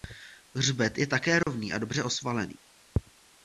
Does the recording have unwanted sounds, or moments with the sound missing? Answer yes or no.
yes